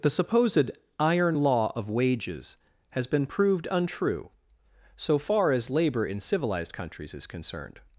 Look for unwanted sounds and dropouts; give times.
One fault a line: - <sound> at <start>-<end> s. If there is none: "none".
none